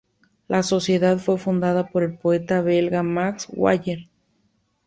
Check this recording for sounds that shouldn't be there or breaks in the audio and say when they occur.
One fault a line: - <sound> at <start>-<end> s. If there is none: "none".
none